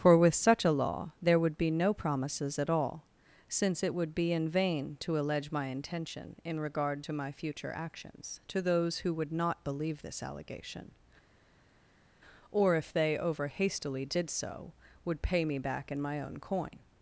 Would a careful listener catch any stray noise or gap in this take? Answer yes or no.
no